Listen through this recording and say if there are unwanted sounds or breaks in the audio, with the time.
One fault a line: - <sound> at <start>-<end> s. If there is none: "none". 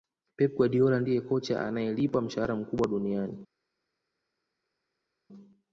none